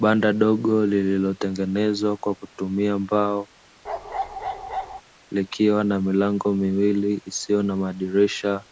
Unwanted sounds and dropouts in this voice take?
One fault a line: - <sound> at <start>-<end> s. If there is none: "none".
- bark at 3.8-5.0 s